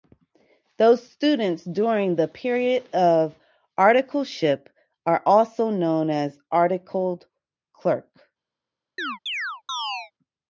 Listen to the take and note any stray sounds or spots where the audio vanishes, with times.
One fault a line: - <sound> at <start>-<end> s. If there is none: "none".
- chirp at 9.0-10.1 s